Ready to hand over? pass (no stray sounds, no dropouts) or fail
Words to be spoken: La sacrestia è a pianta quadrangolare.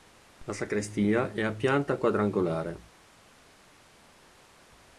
pass